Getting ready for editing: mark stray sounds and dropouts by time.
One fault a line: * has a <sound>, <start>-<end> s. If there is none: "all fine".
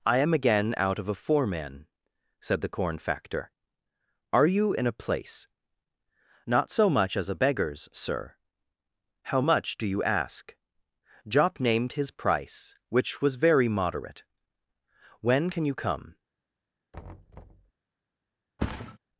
* has a thud, 16.9-17.7 s
* has a thud, 18.6-19.0 s